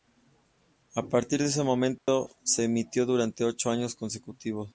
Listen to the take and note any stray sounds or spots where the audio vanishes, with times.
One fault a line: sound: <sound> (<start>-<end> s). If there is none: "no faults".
sound: dropout (2.0-2.1 s)